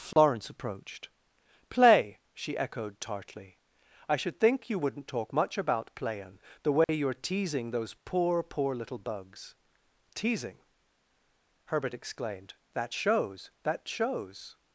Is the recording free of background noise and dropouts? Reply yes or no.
no